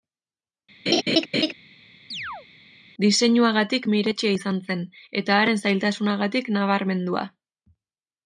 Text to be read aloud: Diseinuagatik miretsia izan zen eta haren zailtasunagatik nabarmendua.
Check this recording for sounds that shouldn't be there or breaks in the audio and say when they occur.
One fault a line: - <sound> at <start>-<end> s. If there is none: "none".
- laugh at 0.9-1.5 s
- chirp at 2.1-2.5 s